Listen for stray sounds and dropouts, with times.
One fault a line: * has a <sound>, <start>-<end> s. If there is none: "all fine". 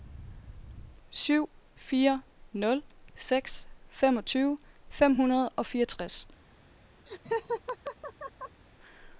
* has a laugh, 7.1-8.6 s